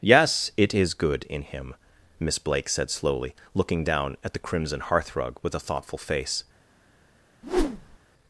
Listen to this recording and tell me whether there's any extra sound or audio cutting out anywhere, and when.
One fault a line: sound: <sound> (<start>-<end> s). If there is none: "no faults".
sound: whoosh (7.4-8.0 s)